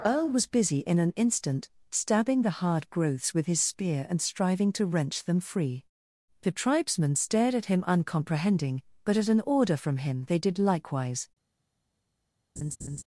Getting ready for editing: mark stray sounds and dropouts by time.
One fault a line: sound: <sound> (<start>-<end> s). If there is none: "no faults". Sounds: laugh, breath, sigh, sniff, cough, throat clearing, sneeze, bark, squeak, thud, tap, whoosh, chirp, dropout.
sound: laugh (12.6-13.0 s)